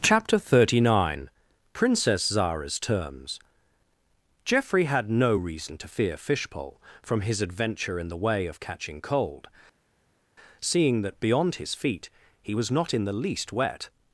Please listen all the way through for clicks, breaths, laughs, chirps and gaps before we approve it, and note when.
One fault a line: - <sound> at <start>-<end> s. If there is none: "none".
none